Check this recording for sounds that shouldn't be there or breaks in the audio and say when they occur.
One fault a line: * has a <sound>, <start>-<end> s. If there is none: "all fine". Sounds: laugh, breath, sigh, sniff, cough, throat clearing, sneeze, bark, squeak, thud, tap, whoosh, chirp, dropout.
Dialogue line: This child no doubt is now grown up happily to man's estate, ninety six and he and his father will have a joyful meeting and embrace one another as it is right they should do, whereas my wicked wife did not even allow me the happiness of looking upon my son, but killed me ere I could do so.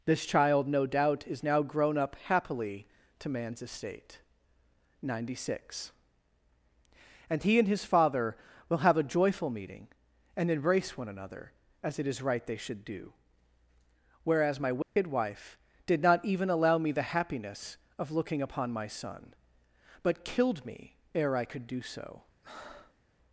* has a dropout, 14.8-15.0 s
* has a breath, 22.4-23.0 s